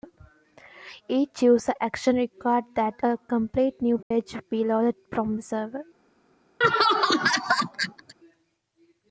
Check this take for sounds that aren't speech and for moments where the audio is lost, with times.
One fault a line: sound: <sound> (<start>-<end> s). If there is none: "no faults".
sound: dropout (4.0-4.1 s)
sound: laugh (6.6-8.1 s)